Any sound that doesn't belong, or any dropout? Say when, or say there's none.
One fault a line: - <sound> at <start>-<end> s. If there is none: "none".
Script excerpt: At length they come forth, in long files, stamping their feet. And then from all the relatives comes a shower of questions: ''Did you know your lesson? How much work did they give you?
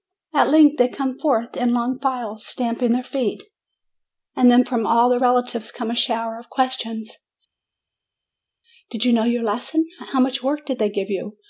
none